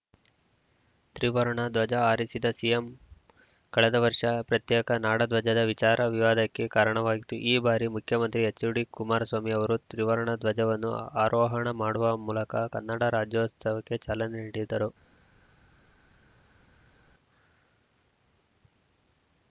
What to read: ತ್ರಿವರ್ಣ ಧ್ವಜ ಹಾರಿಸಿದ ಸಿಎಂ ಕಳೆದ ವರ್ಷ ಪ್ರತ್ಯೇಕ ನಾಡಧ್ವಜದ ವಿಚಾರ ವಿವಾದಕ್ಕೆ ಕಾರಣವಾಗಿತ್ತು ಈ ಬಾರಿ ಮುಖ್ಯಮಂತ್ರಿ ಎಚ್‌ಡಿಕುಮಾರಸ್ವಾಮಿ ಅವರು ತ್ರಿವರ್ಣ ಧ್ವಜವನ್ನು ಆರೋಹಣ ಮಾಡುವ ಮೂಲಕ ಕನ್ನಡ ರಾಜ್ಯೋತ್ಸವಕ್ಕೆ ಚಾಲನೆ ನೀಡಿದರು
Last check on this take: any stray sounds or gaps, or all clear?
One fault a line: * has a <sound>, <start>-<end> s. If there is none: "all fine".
all fine